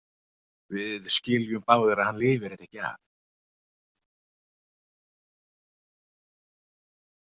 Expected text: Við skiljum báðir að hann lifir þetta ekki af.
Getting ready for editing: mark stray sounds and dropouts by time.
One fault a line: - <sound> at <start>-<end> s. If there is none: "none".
none